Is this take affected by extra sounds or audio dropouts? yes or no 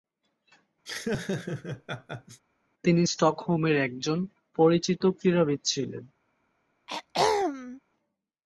yes